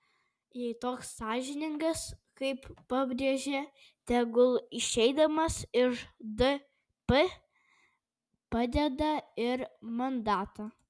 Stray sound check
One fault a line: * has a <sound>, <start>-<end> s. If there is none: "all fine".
all fine